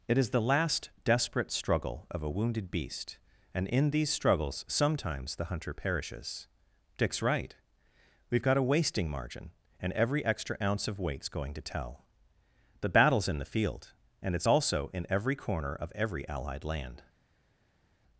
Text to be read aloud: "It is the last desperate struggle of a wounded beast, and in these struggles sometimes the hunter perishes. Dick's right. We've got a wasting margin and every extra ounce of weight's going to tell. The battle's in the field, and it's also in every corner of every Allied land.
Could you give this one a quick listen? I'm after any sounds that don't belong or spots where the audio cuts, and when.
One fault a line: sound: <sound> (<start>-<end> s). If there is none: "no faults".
no faults